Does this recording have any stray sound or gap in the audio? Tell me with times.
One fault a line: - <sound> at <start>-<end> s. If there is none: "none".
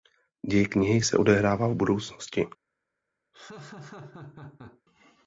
- laugh at 3.3-4.8 s